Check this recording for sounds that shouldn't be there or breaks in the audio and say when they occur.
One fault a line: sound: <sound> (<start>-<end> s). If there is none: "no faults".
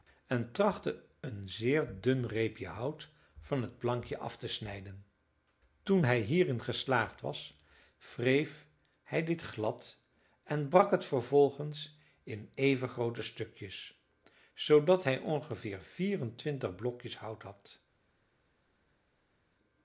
no faults